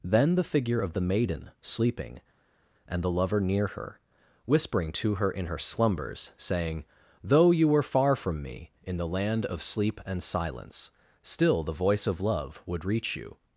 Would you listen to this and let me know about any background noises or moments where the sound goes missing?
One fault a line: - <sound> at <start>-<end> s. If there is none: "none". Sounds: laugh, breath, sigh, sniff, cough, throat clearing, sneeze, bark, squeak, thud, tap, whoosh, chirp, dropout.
none